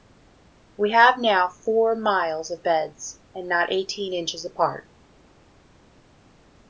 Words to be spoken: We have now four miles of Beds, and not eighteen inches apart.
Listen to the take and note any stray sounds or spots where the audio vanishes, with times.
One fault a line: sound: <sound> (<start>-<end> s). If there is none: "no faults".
no faults